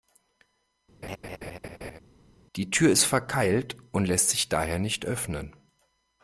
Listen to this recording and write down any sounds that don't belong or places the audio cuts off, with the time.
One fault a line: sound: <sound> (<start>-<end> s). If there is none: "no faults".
sound: laugh (1.0-2.0 s)